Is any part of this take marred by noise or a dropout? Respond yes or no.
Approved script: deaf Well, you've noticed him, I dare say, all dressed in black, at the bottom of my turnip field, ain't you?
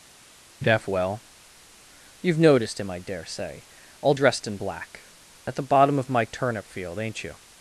no